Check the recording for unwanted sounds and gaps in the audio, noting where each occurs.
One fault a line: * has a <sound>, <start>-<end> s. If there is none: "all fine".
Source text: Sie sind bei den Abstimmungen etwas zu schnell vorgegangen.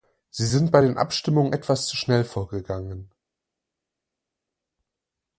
all fine